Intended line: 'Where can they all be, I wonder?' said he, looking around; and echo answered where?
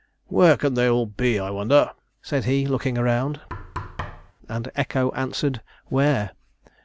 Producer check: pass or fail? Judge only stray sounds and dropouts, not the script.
fail